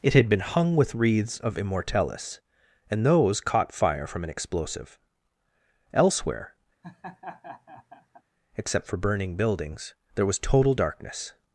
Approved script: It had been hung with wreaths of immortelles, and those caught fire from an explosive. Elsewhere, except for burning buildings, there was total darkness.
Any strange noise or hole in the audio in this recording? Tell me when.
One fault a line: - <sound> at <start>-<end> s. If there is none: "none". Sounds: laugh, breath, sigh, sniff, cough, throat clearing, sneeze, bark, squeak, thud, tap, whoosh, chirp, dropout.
- laugh at 6.8-8.2 s